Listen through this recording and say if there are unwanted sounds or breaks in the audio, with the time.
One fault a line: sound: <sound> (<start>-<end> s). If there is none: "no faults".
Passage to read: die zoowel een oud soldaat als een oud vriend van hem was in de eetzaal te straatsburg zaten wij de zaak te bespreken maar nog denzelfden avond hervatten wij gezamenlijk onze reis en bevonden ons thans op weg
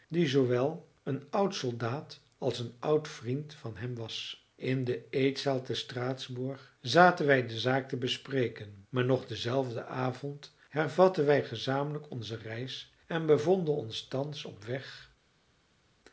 no faults